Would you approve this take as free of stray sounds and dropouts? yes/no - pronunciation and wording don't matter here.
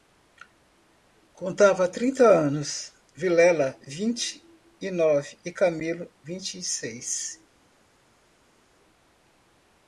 yes